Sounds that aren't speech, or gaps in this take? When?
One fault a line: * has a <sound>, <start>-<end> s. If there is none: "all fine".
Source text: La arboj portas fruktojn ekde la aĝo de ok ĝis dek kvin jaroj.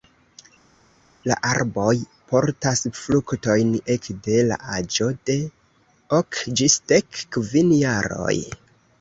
all fine